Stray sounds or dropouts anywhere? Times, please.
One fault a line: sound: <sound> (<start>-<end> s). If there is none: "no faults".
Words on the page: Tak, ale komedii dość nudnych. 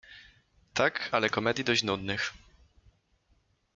no faults